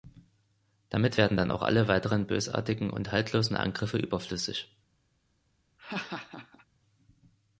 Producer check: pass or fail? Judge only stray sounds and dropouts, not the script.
fail